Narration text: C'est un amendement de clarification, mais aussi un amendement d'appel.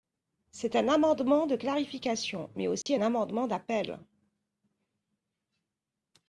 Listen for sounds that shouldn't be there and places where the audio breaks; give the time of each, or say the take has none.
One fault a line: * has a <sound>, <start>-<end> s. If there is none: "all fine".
* has a dropout, 2.8-2.9 s